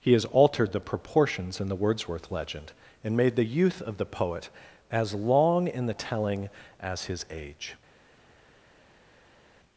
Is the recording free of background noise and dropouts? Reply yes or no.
yes